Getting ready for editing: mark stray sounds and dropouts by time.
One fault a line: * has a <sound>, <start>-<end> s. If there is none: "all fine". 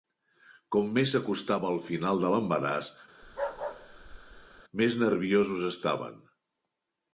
* has a bark, 3.2-4.6 s